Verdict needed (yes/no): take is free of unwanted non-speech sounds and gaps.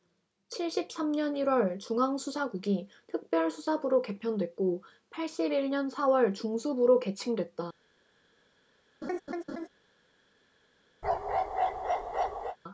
no